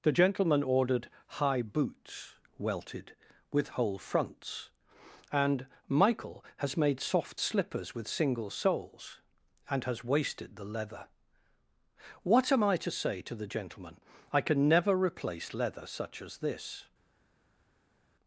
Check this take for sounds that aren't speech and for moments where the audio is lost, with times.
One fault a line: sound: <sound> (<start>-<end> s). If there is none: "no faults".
no faults